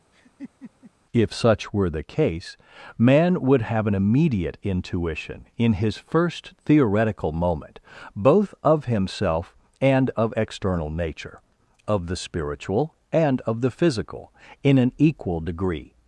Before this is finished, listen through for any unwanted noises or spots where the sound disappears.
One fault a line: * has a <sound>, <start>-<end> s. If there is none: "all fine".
* has a laugh, 0.1-0.9 s